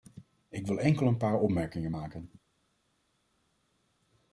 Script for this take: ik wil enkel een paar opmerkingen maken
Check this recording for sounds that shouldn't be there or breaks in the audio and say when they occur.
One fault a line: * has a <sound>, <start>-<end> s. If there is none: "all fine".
all fine